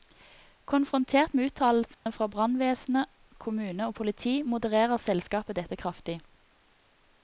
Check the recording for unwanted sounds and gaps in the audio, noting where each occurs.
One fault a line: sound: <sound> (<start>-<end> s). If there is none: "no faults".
sound: dropout (1.9-2.1 s)